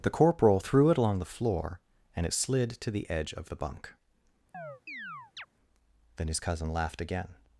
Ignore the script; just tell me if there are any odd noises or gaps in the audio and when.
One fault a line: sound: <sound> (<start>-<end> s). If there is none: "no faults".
sound: chirp (4.5-5.5 s)